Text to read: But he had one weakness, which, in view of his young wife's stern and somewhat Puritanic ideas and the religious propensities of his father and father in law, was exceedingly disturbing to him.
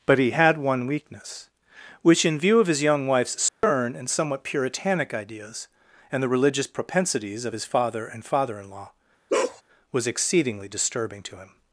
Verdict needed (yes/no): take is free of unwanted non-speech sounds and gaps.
no